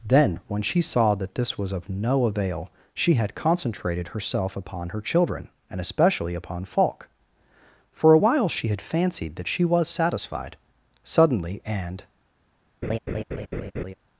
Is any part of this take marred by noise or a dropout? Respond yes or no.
yes